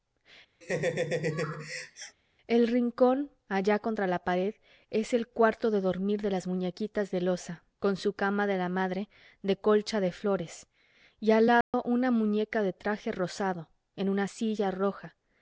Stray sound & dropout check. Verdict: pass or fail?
fail